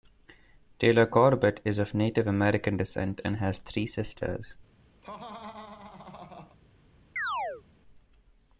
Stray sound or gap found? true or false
true